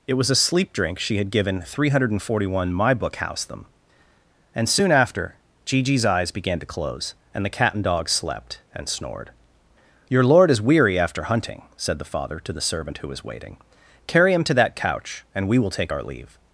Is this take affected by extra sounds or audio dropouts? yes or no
no